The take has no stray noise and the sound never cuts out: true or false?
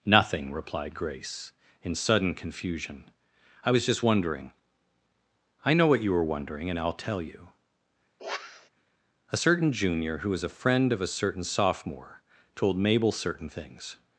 false